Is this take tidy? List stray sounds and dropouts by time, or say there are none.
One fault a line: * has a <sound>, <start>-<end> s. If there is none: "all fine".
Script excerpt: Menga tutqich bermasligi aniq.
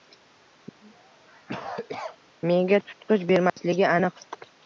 * has a cough, 0.8-2.2 s
* has a dropout, 3.5-3.6 s